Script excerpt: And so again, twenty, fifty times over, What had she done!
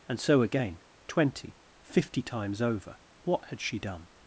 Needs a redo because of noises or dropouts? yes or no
no